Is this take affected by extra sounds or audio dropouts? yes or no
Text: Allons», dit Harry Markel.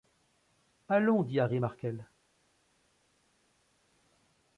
no